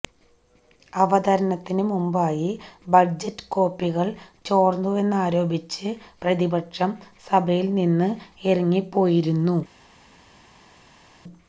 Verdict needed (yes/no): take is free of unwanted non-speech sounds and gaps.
yes